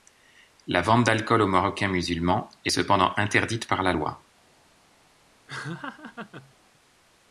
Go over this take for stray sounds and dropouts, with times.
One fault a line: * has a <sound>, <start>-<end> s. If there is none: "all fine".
* has a laugh, 5.5-6.5 s